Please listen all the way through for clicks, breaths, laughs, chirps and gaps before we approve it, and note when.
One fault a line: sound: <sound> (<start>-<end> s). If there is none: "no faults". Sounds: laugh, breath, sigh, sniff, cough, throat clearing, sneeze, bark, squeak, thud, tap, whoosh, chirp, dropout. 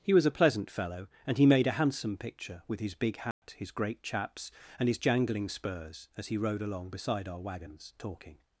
sound: dropout (3.3-3.4 s)